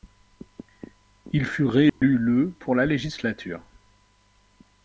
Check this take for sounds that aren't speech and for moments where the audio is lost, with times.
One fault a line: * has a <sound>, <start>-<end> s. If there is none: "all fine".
* has a dropout, 1.9-2.0 s